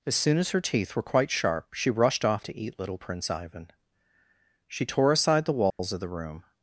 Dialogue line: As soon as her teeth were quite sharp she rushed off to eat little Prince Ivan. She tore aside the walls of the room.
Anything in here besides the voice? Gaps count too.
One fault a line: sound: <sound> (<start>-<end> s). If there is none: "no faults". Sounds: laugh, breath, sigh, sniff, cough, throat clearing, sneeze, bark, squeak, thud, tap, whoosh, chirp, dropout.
sound: dropout (5.7-5.8 s)